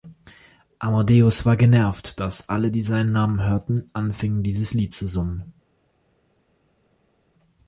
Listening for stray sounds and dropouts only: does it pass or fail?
pass